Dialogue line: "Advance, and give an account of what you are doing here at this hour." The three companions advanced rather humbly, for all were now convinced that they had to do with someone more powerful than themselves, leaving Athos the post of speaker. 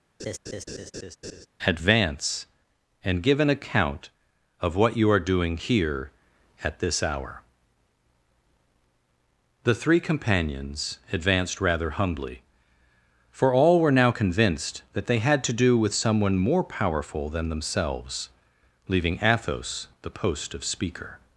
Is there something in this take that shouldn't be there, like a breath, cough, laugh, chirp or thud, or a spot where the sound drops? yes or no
yes